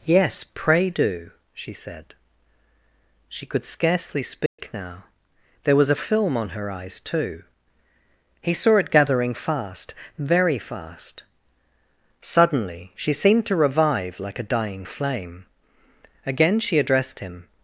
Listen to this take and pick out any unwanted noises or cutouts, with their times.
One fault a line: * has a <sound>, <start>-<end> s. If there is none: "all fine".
* has a dropout, 4.5-4.6 s